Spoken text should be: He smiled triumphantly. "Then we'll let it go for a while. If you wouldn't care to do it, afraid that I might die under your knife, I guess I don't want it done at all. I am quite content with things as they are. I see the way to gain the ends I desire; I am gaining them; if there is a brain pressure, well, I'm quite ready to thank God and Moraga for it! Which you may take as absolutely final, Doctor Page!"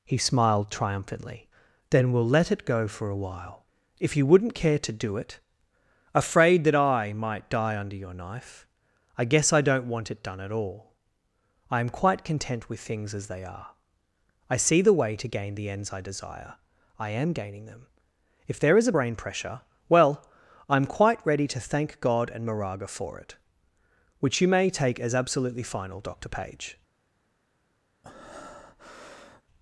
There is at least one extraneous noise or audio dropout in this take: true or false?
true